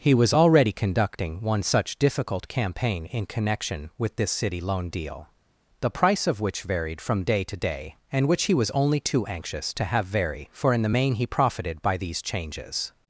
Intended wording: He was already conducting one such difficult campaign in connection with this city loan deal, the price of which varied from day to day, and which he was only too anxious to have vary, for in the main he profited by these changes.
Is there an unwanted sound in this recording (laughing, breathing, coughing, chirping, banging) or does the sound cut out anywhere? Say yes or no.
no